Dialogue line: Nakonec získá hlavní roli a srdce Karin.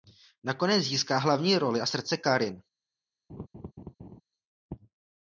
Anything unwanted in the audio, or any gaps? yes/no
yes